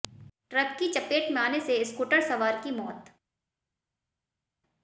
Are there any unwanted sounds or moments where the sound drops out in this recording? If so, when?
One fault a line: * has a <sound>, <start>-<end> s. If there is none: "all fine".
all fine